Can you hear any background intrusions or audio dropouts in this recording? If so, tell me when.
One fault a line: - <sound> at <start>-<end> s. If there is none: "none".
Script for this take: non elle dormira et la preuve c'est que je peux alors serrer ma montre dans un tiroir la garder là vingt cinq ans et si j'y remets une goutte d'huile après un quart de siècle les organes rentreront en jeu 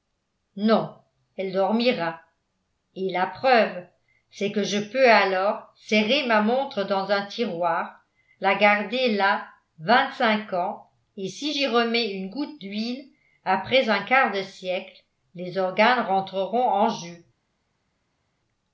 none